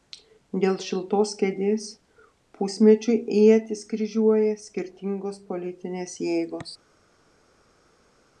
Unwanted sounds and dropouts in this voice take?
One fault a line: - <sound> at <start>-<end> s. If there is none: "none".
none